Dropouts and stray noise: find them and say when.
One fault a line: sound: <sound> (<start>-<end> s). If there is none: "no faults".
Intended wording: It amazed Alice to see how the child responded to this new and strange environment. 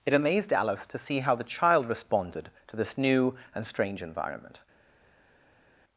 no faults